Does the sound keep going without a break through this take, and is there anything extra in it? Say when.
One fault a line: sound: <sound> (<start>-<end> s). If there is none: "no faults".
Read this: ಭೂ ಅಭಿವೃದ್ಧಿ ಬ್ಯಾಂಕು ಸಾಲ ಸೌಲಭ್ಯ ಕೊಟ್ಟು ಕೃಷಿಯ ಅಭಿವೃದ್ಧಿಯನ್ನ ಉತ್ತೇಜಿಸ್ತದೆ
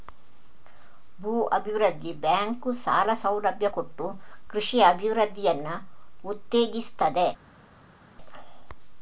no faults